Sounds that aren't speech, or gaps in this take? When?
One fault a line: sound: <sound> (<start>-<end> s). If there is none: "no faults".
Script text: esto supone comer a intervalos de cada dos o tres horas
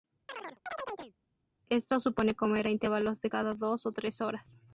sound: chirp (0.3-1.1 s)